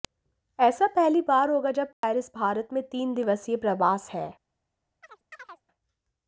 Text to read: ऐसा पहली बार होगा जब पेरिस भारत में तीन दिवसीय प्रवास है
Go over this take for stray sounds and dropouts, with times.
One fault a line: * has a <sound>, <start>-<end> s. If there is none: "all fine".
* has a dropout, 1.9-2.0 s
* has a chirp, 5.0-5.6 s